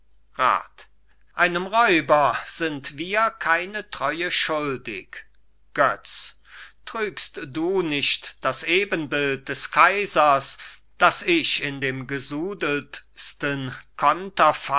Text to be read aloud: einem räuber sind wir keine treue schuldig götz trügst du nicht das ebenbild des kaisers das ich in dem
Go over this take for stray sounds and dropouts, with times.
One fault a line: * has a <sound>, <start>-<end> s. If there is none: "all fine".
all fine